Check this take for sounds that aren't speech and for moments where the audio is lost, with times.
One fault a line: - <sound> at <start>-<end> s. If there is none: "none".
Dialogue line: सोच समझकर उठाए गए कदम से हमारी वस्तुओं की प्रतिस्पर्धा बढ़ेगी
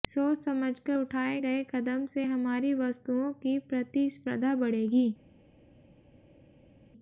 none